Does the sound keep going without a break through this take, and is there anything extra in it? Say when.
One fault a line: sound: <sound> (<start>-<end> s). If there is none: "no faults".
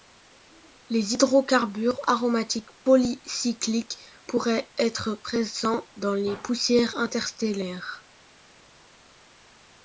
no faults